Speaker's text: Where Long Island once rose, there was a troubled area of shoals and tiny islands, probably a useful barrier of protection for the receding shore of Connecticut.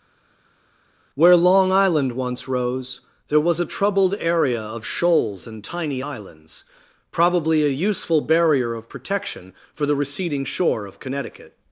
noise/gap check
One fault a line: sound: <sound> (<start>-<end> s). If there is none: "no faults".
no faults